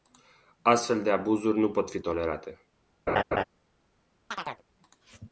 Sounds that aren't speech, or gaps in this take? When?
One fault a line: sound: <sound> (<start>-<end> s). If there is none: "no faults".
sound: laugh (3.1-3.4 s)
sound: chirp (4.3-4.6 s)